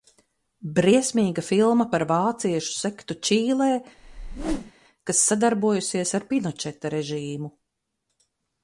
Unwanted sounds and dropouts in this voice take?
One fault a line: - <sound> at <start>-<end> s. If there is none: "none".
- whoosh at 4.0-4.7 s